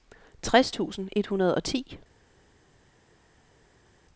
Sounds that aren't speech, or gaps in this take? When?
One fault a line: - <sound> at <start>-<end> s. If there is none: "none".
none